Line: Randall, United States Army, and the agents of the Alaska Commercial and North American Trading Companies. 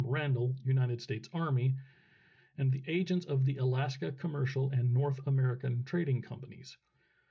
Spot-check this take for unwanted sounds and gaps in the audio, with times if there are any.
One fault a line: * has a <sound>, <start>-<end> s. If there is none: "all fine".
all fine